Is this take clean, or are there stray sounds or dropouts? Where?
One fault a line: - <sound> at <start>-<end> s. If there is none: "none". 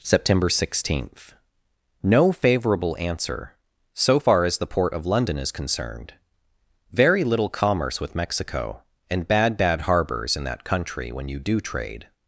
none